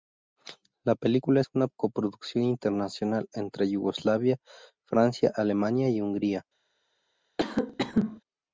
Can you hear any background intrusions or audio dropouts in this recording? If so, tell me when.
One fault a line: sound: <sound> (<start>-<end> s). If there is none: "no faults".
sound: cough (7.4-8.2 s)